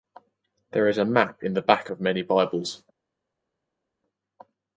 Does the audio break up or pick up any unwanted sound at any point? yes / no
no